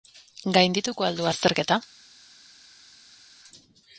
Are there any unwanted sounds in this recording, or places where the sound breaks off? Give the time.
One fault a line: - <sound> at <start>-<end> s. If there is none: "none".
none